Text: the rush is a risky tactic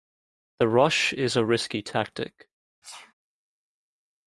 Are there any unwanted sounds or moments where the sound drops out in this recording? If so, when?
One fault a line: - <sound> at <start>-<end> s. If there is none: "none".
- sneeze at 2.8-3.1 s